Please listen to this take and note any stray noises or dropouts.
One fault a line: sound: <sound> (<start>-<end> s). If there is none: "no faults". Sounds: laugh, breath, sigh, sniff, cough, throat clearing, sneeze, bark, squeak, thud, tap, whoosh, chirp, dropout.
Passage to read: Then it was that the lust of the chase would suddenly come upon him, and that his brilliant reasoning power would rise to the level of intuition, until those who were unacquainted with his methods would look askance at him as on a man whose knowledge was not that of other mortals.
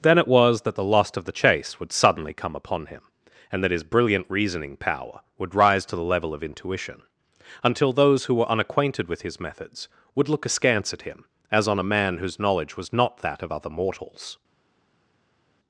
no faults